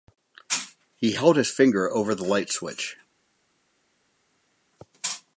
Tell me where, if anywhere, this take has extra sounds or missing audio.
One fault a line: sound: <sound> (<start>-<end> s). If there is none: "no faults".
no faults